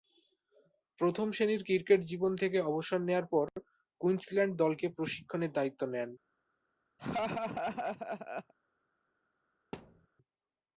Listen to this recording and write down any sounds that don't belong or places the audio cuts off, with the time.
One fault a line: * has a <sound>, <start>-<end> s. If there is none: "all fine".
* has a laugh, 7.0-8.5 s
* has a thud, 9.7-10.1 s